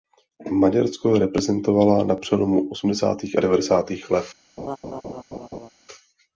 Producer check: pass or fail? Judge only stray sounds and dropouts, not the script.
fail